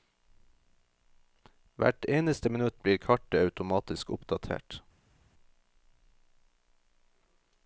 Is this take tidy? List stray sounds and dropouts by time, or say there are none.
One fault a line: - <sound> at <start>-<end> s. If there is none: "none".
none